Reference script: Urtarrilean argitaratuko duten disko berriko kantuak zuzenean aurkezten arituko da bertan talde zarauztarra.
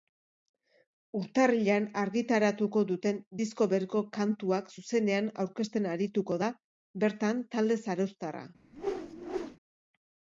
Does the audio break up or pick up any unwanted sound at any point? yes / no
yes